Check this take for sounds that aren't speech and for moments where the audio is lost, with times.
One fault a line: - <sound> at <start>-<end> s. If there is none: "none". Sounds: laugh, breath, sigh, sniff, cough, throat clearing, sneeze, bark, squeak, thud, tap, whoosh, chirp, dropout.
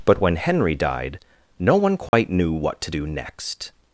- dropout at 2.1-2.1 s